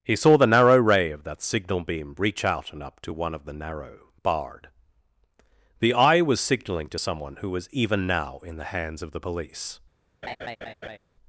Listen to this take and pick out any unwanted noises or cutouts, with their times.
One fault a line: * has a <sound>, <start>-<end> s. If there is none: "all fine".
* has a laugh, 10.2-11.0 s